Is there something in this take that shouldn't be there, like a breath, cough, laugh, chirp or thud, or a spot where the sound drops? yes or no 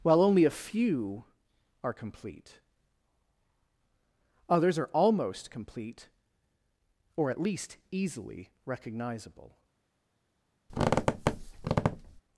yes